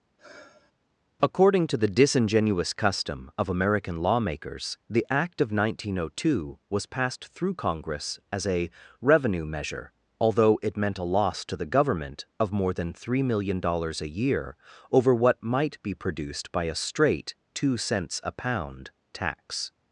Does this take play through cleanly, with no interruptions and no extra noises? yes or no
no